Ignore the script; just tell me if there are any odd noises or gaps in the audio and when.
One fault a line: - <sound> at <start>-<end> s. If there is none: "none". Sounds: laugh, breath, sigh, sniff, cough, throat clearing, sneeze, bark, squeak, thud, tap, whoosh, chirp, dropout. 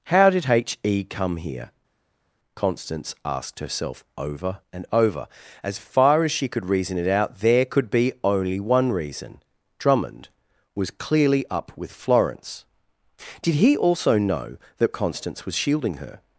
none